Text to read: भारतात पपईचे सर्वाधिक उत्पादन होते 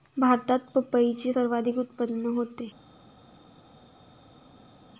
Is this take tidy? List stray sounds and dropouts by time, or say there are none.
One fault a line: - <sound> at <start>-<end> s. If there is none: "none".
none